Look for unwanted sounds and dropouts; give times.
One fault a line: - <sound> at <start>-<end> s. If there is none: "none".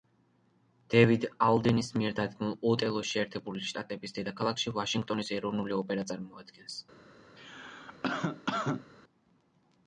- cough at 7.4-8.9 s